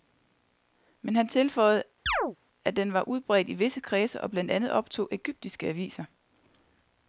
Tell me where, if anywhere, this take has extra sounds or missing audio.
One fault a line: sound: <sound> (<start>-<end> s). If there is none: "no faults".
sound: chirp (2.1-2.4 s)